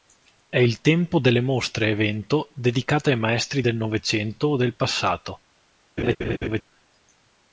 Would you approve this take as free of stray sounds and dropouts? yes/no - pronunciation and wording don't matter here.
no